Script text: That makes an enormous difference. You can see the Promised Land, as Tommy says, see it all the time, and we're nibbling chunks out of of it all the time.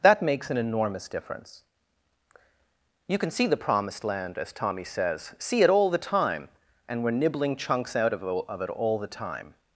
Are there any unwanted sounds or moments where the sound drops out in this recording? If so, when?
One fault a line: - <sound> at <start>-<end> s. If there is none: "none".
none